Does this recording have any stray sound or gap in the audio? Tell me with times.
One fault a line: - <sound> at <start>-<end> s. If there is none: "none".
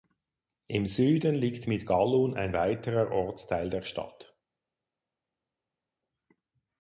none